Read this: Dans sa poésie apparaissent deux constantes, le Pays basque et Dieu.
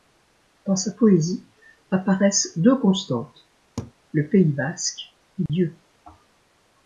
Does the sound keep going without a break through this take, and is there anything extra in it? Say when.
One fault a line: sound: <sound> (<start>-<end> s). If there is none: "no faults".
sound: laugh (3.8-3.9 s)
sound: dropout (5.5-5.5 s)